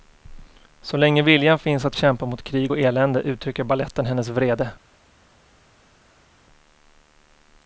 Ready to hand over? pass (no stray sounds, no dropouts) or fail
pass